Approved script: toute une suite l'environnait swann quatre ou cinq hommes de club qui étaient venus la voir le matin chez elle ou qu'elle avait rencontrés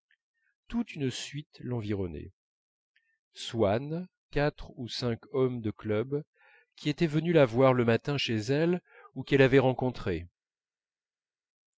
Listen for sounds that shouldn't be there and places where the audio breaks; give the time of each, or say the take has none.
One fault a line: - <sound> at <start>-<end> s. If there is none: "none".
none